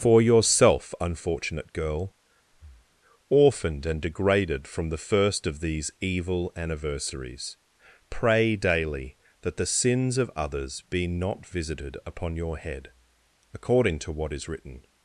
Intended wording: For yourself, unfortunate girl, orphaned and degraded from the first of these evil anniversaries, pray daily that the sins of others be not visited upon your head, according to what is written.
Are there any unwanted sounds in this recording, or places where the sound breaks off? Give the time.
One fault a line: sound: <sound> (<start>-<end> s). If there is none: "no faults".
sound: breath (2.5-3.0 s)